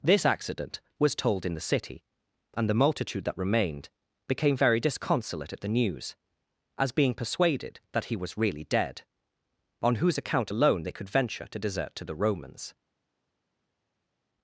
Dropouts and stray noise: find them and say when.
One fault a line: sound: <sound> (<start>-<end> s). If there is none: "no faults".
no faults